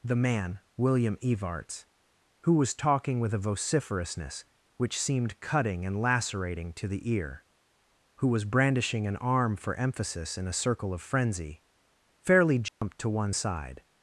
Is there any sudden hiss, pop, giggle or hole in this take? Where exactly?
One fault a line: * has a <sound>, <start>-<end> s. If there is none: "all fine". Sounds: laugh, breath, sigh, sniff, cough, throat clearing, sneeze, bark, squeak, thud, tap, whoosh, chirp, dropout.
* has a dropout, 12.7-12.8 s